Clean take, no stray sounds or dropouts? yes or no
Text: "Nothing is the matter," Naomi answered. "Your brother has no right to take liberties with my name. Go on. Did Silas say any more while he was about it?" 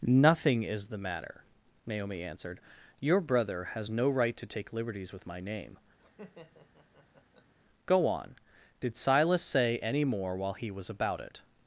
no